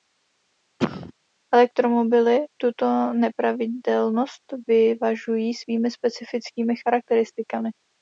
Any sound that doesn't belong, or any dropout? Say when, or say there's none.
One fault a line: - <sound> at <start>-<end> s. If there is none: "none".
- cough at 0.8-1.1 s